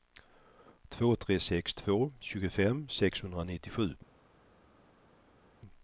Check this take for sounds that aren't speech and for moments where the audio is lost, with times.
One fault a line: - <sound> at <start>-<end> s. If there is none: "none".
none